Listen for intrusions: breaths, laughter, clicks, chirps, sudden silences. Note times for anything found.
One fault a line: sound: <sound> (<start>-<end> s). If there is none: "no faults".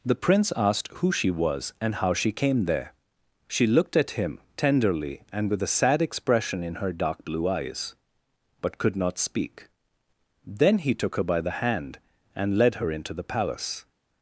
no faults